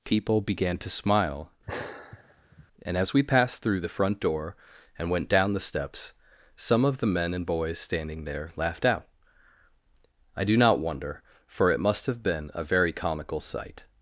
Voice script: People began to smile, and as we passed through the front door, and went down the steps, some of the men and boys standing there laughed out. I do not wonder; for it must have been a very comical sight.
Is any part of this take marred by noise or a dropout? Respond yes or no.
yes